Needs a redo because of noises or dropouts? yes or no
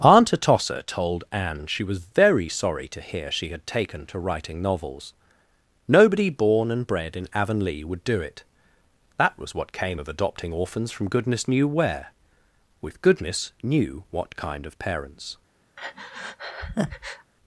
yes